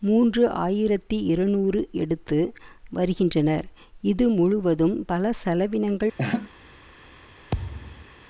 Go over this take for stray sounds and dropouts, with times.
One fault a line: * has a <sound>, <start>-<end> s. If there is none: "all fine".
* has a laugh, 6.2-6.5 s
* has a thud, 7.5-8.1 s